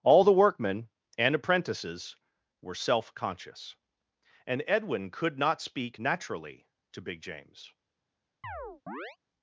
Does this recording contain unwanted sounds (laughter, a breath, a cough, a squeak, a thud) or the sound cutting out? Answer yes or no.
yes